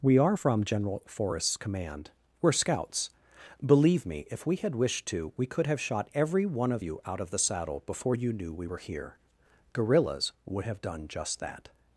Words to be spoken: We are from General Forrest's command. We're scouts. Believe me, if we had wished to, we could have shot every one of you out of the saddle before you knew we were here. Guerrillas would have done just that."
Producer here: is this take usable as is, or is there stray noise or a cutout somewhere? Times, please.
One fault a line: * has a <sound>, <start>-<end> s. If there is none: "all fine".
all fine